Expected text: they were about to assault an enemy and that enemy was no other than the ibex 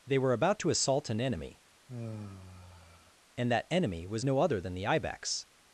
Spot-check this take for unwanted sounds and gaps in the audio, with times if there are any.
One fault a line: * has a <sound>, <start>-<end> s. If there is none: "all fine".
* has a sigh, 1.9-3.1 s